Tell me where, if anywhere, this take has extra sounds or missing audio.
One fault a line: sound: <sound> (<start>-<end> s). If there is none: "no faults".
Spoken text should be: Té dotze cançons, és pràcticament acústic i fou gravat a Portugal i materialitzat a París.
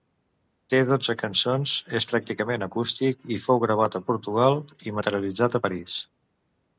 no faults